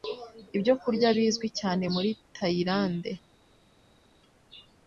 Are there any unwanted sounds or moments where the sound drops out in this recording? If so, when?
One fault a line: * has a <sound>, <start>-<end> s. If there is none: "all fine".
all fine